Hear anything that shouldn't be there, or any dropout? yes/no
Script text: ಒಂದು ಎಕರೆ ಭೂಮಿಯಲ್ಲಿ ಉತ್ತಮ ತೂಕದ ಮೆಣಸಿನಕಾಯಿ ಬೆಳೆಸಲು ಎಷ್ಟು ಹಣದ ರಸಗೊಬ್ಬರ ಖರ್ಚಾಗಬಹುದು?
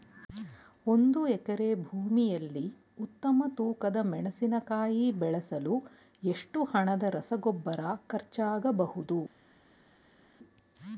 no